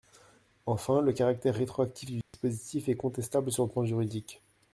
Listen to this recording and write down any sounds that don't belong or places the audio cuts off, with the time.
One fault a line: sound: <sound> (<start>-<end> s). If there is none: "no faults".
sound: dropout (2.2-2.3 s)